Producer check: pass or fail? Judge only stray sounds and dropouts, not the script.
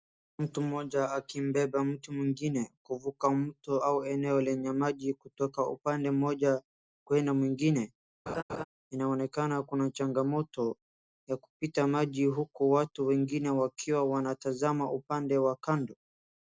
fail